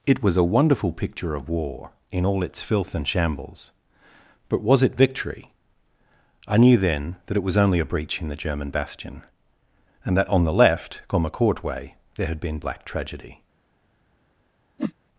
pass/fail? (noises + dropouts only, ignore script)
fail